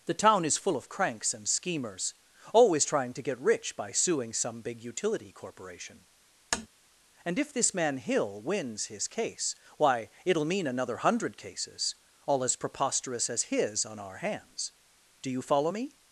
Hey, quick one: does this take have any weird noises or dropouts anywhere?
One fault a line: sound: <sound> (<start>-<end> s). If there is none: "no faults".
sound: tap (6.5-6.7 s)